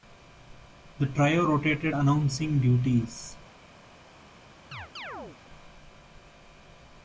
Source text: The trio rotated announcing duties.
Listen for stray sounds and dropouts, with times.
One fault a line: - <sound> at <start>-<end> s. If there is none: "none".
- chirp at 4.7-5.4 s